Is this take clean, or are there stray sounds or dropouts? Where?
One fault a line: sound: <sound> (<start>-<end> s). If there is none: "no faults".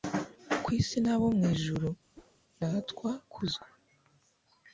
sound: whoosh (2.1-2.4 s)